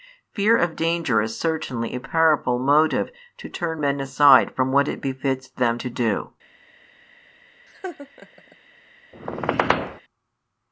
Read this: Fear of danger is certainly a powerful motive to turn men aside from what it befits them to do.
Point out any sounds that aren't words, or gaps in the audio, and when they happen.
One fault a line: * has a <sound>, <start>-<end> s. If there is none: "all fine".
* has a laugh, 7.7-8.6 s
* has a squeak, 9.1-10.0 s